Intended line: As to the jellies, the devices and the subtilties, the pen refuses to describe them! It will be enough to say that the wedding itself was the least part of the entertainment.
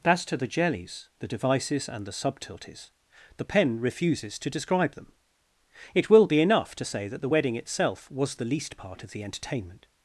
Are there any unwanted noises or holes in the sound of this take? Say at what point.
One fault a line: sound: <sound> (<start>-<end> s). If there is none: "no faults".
no faults